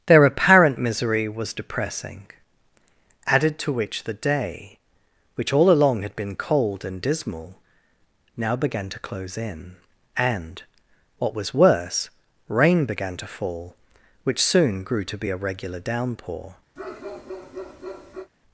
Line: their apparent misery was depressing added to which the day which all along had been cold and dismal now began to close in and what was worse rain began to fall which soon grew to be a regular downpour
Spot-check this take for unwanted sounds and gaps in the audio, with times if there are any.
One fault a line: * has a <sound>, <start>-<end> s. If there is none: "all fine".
* has a bark, 16.8-18.3 s